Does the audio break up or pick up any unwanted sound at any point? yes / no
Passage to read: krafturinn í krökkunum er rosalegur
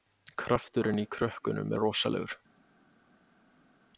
no